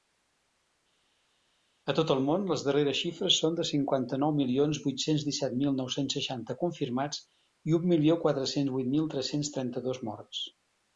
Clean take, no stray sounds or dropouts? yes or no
yes